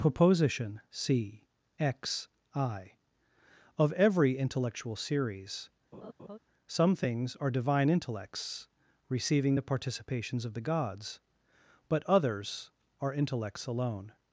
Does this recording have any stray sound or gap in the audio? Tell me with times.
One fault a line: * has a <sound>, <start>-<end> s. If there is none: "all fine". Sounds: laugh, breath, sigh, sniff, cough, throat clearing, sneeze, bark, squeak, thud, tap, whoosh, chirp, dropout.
* has a laugh, 5.9-6.4 s